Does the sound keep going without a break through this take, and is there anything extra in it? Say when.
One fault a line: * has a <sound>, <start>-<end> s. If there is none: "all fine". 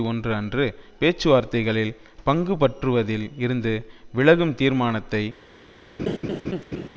* has a laugh, 6.0-6.9 s